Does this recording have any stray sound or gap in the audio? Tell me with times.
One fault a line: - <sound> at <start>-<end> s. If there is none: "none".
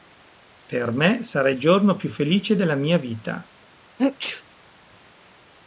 - sneeze at 4.0-4.4 s